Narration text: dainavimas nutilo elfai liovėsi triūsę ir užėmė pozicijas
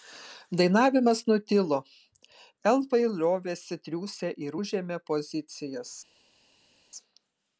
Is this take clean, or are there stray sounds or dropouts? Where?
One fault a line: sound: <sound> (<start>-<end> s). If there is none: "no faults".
no faults